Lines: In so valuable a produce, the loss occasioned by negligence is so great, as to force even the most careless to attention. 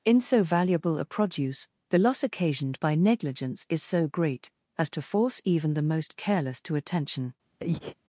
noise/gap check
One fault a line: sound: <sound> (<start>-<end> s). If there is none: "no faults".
sound: breath (7.6-8.0 s)